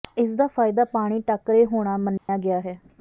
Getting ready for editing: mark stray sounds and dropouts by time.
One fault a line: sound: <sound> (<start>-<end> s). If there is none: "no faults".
sound: dropout (2.2-2.3 s)